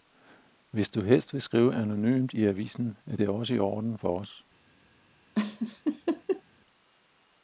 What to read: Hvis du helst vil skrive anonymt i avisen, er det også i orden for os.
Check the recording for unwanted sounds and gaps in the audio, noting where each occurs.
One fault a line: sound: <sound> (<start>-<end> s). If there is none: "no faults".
sound: laugh (5.3-6.4 s)